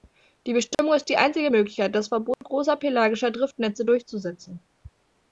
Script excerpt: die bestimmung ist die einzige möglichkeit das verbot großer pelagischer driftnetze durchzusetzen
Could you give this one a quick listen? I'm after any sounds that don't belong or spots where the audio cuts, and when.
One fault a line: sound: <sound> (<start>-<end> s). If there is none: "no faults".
sound: dropout (0.7-0.8 s)
sound: dropout (2.3-2.4 s)